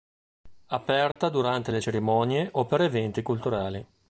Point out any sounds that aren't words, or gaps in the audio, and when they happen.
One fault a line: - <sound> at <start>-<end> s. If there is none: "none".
- dropout at 1.1-1.2 s